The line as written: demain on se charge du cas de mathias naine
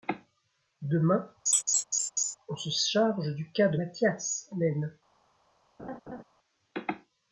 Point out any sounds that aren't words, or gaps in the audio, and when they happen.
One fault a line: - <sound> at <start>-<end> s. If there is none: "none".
- laugh at 1.5-2.4 s
- laugh at 5.8-6.2 s